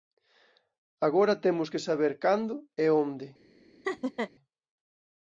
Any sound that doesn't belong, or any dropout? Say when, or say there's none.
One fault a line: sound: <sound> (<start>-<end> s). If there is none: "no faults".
sound: laugh (3.8-4.3 s)